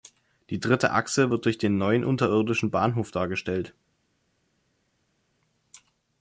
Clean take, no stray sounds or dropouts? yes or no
yes